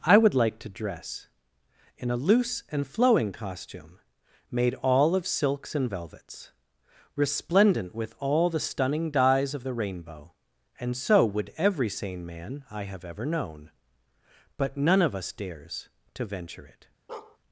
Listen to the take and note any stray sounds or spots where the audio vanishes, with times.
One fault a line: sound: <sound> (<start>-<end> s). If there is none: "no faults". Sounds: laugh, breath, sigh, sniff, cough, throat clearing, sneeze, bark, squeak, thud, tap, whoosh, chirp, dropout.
sound: bark (17.1-17.4 s)